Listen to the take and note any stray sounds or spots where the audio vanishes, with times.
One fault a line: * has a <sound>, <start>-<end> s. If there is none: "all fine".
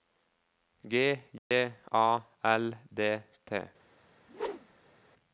* has a dropout, 1.4-1.5 s
* has a whoosh, 4.3-5.0 s